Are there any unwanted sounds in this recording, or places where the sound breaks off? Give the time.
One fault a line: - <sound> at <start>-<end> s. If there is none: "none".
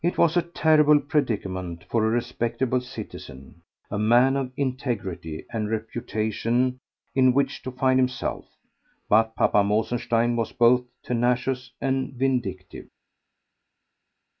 none